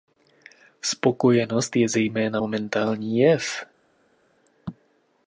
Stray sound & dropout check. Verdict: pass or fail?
pass